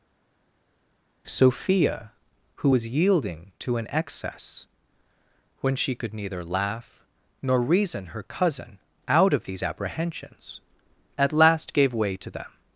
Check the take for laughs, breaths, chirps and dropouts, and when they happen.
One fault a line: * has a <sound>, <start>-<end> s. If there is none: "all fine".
all fine